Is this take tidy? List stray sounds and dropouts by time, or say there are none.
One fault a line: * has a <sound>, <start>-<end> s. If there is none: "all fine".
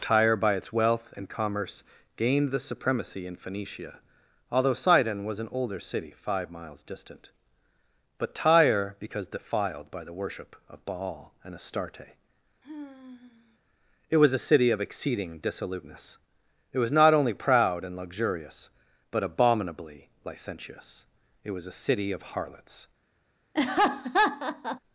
* has a sigh, 12.6-13.6 s
* has a laugh, 23.5-24.8 s